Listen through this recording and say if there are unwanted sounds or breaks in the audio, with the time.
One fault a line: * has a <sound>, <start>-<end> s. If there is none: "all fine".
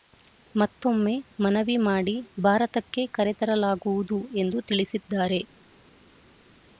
all fine